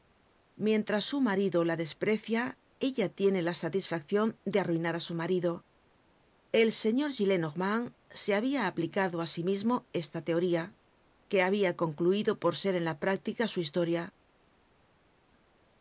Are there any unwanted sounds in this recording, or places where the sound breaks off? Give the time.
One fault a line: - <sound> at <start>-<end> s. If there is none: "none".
none